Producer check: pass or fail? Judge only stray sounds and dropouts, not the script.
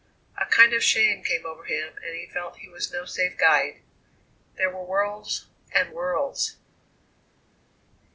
pass